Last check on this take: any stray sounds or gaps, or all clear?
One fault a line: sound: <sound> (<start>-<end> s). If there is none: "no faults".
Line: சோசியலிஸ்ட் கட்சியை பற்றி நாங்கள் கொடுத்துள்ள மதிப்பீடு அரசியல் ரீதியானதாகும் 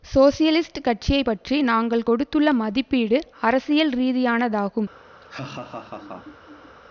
sound: laugh (5.2-6.8 s)